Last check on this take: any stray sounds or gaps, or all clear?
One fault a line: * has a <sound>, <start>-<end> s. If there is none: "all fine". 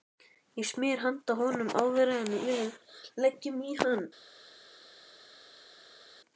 all fine